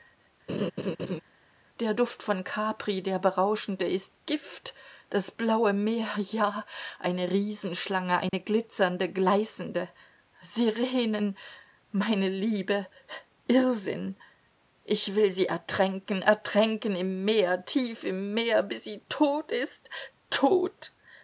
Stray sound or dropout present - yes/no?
yes